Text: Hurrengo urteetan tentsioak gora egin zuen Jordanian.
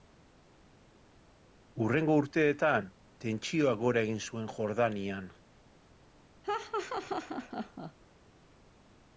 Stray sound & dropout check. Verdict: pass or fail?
fail